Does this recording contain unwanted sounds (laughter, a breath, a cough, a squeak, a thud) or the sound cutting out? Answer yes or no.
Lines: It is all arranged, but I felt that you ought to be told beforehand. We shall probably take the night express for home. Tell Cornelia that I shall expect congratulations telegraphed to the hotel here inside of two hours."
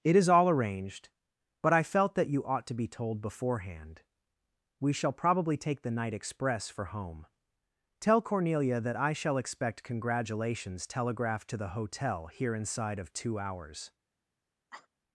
yes